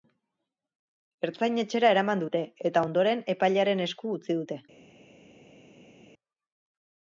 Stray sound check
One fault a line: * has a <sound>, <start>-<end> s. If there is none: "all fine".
all fine